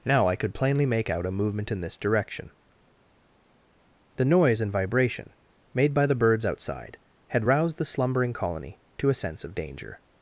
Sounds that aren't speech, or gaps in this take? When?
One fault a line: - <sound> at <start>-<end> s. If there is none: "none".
none